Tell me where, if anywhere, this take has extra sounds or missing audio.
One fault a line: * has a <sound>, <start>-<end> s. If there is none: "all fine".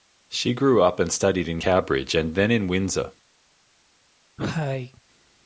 * has a cough, 4.4-5.0 s